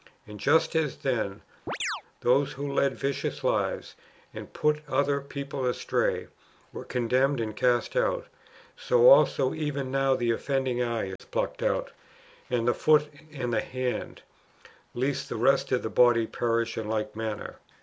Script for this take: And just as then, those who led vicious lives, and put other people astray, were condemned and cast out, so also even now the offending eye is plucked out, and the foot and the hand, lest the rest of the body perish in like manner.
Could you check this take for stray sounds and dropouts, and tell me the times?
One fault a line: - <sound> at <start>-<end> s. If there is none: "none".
- chirp at 1.7-2.0 s
- dropout at 11.2-11.2 s